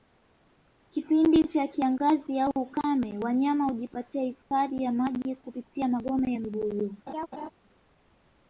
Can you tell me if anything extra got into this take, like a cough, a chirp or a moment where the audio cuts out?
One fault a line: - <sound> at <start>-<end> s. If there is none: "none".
- laugh at 7.1-7.5 s